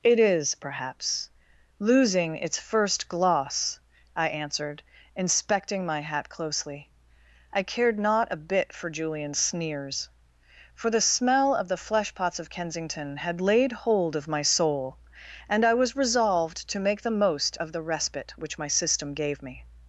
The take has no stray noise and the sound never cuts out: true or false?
true